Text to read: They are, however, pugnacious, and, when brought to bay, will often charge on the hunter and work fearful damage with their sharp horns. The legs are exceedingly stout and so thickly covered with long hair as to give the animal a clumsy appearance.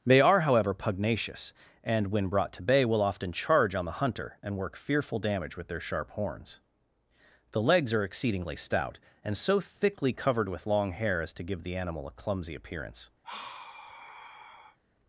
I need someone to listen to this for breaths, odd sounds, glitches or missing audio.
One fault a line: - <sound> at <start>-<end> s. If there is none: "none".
- sigh at 13.2-14.8 s